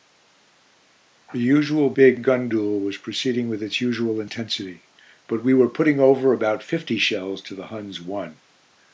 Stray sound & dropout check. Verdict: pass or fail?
pass